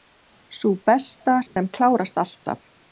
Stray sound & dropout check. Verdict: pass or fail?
fail